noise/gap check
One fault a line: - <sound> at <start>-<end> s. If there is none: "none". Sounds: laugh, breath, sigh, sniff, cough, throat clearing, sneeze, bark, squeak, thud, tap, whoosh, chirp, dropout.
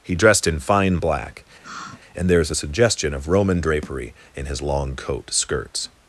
- sigh at 1.6-2.0 s